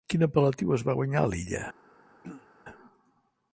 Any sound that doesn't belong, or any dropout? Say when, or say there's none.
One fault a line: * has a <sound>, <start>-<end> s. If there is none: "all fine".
* has a throat clearing, 2.2-2.5 s